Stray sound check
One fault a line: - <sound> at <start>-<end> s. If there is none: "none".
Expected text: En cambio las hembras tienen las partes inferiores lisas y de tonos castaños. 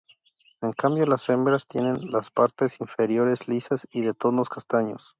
none